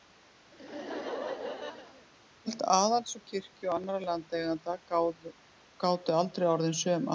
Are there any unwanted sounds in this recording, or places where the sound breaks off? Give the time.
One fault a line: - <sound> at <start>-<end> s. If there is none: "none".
- laugh at 0.5-2.1 s